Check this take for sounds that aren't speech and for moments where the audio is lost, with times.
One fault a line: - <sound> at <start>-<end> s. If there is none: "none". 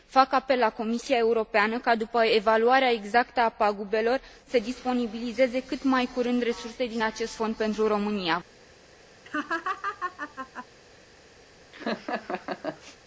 - laugh at 9.2-10.7 s
- laugh at 11.7-13.0 s